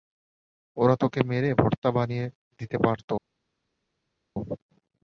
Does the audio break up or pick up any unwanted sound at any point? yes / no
no